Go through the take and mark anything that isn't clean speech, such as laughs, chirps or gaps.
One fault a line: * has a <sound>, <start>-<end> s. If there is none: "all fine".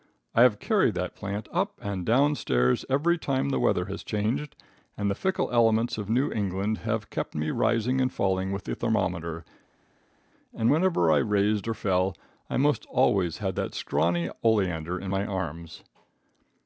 all fine